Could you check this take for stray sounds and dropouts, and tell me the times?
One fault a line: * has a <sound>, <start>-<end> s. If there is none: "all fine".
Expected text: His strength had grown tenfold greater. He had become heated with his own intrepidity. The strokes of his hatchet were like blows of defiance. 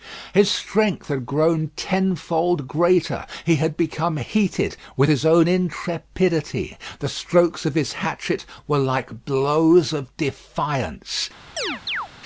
* has a chirp, 11.6-12.1 s